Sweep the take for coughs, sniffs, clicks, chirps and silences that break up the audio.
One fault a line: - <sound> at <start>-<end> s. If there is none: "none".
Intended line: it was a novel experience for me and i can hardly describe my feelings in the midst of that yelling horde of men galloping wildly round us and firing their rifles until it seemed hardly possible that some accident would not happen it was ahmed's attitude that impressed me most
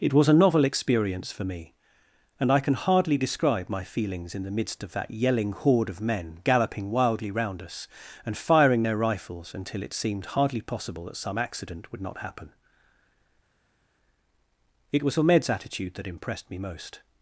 none